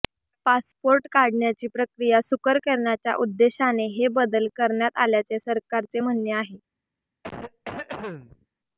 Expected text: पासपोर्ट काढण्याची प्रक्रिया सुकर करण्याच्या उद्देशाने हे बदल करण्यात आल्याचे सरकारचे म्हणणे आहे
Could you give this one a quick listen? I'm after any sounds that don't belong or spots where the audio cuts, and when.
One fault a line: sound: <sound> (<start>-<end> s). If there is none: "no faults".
sound: cough (7.2-8.5 s)